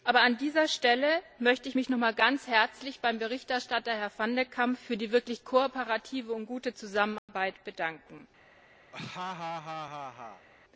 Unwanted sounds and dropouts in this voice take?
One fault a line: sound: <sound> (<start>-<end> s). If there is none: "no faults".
sound: dropout (7.2-7.3 s)
sound: laugh (8.9-10.5 s)